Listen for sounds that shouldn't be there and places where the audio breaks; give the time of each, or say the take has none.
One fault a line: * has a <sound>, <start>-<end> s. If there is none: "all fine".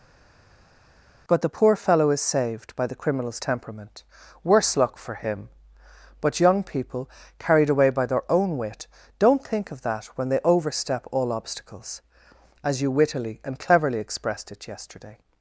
all fine